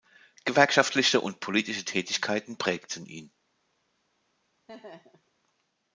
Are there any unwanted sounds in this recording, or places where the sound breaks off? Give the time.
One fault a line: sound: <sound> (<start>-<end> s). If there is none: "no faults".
sound: laugh (4.7-5.3 s)